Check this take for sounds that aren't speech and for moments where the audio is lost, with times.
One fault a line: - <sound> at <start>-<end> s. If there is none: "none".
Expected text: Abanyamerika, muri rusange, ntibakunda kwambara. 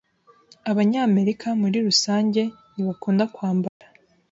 - dropout at 3.7-3.8 s